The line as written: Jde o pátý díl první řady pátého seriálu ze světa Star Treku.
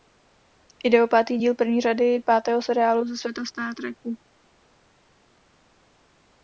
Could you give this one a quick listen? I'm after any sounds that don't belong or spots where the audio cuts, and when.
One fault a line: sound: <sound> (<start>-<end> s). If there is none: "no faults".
no faults